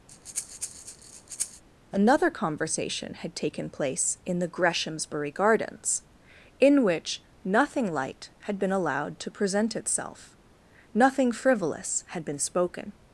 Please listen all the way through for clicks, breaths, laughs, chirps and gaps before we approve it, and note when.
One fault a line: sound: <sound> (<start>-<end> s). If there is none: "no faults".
sound: breath (0.1-1.6 s)